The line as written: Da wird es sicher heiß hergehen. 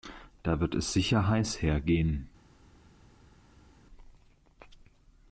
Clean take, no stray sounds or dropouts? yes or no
yes